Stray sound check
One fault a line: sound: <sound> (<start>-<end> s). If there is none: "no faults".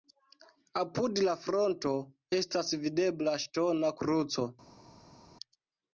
no faults